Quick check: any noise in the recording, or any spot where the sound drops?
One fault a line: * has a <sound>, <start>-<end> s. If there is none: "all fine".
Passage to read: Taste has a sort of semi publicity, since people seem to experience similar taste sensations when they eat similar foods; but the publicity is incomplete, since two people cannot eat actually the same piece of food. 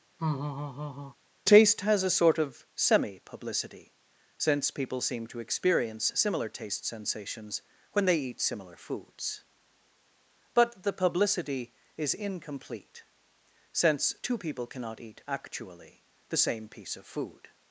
* has a laugh, 0.2-1.2 s